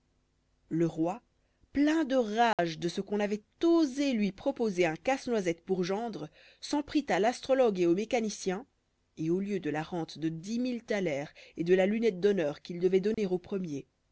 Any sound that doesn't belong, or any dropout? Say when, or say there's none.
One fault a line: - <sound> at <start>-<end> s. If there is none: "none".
- dropout at 2.5-2.6 s
- dropout at 13.1-13.2 s